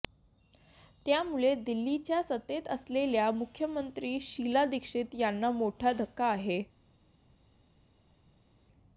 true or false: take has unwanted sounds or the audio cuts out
false